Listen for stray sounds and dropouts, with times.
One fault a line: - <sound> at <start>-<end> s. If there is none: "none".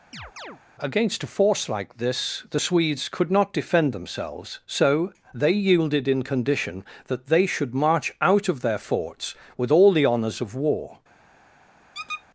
- chirp at 0.1-0.6 s
- squeak at 11.9-12.2 s